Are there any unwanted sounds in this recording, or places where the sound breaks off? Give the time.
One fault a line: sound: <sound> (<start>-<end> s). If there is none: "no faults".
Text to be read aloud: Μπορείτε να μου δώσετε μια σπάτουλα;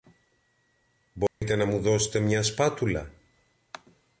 sound: dropout (1.3-1.4 s)